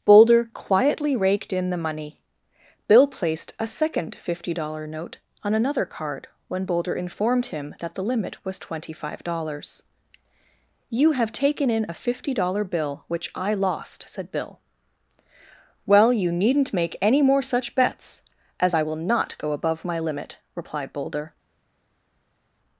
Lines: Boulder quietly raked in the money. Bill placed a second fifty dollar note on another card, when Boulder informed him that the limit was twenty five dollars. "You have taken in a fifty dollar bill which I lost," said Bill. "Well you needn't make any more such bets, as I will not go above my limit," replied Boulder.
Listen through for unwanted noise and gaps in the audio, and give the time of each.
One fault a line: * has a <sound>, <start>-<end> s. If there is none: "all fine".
all fine